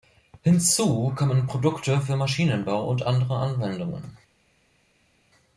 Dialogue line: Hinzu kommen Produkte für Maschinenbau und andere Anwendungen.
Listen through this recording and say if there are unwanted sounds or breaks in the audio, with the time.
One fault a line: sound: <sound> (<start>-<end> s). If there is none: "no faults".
no faults